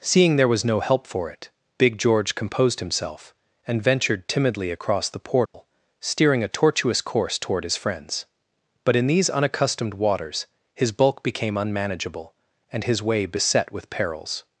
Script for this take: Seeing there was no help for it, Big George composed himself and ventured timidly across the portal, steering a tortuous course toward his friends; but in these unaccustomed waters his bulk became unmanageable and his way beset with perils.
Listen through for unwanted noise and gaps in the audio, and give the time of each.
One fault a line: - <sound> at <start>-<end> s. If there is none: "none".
- dropout at 5.5-5.5 s